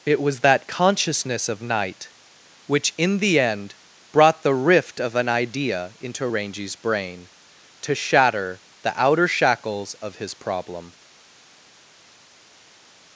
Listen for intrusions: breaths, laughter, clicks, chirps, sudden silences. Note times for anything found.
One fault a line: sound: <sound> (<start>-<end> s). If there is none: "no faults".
no faults